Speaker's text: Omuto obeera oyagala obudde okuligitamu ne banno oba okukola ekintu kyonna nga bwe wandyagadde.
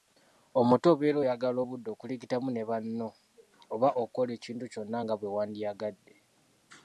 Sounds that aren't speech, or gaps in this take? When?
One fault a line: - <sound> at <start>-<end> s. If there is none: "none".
none